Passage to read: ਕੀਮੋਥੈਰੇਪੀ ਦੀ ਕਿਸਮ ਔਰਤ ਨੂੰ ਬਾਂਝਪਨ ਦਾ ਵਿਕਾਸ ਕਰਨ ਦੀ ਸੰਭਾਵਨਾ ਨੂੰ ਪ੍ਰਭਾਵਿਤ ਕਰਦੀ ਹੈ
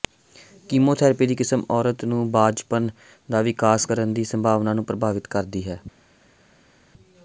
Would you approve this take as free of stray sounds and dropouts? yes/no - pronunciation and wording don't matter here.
yes